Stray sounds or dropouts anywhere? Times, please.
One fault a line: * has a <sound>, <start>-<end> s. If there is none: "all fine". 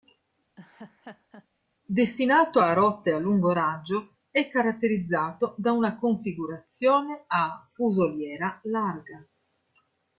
* has a laugh, 0.6-1.5 s